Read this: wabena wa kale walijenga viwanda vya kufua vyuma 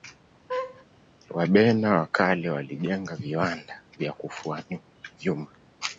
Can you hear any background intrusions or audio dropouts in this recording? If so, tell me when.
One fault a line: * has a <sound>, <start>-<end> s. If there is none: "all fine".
* has a laugh, 0.5-0.9 s